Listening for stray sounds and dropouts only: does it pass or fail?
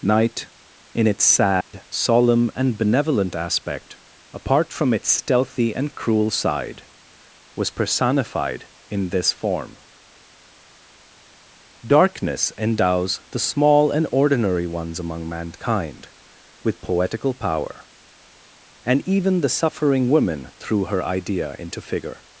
fail